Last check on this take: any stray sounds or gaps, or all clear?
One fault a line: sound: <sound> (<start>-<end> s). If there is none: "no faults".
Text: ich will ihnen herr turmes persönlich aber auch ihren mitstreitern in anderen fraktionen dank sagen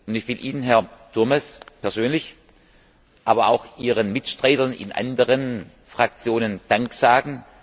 no faults